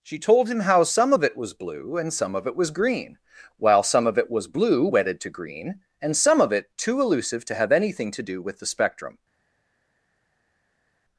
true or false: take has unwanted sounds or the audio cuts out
false